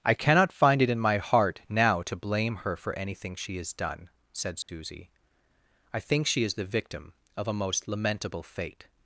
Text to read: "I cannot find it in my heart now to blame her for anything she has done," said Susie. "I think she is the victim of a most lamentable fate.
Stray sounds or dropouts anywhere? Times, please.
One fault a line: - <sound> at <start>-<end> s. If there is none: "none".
- dropout at 4.6-4.7 s